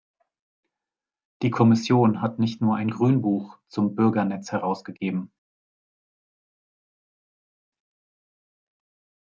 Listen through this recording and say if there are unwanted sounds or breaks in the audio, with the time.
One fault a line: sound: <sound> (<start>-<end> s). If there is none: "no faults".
no faults